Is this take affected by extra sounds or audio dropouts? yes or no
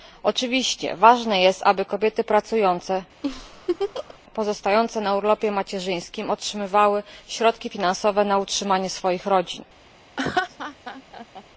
yes